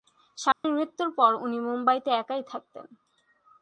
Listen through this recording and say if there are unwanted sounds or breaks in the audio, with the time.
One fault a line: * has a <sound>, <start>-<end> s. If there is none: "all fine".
* has a dropout, 0.5-0.6 s